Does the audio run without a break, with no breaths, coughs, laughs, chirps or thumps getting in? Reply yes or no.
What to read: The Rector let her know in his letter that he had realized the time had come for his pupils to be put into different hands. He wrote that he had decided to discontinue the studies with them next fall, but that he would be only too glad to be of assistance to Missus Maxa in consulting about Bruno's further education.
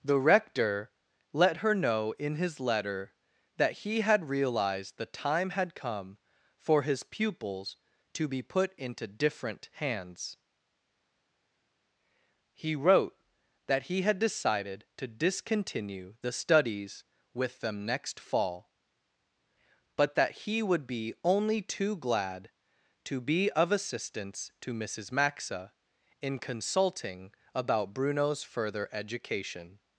yes